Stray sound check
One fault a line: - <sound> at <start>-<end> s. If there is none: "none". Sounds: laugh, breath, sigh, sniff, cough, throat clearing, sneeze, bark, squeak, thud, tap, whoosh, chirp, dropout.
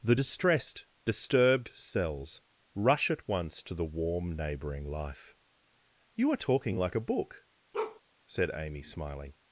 - bark at 7.7-8.0 s